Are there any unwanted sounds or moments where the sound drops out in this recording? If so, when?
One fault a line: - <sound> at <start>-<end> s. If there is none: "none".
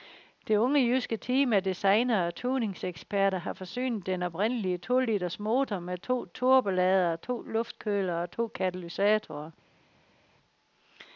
none